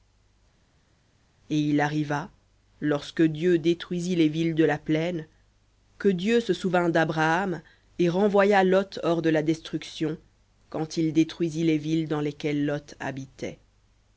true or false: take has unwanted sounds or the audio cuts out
false